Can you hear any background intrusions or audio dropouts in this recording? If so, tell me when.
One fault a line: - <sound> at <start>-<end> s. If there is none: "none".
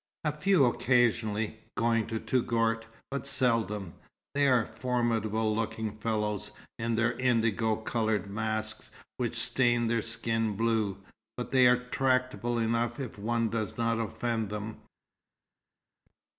none